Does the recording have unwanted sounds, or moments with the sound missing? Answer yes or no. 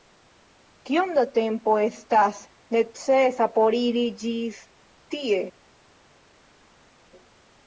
no